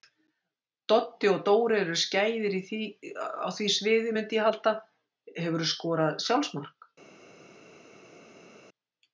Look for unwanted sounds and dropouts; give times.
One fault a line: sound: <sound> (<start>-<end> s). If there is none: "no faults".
no faults